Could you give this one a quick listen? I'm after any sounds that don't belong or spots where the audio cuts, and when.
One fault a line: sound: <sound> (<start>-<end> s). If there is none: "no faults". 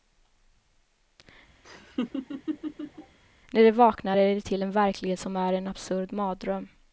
sound: laugh (1.6-3.2 s)